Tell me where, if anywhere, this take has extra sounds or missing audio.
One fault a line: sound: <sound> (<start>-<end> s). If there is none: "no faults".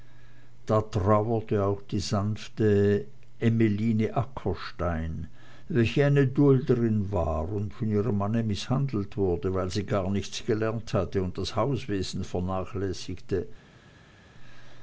no faults